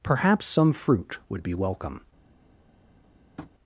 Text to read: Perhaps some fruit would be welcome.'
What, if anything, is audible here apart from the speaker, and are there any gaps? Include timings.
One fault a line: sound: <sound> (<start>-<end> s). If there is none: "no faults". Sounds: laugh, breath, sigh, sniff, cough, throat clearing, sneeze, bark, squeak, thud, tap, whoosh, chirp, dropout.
sound: tap (3.4-3.5 s)